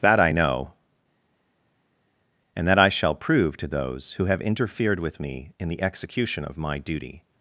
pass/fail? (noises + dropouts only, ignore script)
pass